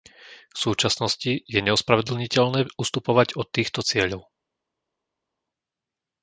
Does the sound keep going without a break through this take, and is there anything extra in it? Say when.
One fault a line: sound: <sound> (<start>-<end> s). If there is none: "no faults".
no faults